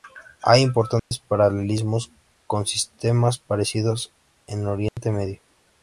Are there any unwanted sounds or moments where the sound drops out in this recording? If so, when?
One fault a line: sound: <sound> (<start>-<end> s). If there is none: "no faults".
sound: dropout (1.0-1.1 s)
sound: dropout (4.9-5.0 s)